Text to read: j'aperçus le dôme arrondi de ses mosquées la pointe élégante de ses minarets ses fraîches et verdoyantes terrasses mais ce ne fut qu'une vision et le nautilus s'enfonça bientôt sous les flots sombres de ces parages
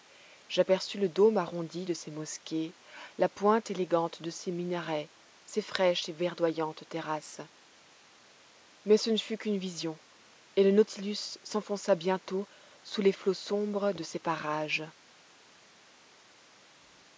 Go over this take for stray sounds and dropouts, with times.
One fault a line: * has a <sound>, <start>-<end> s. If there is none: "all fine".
all fine